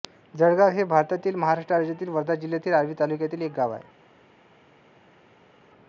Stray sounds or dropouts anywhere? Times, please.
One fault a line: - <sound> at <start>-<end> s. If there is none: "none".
none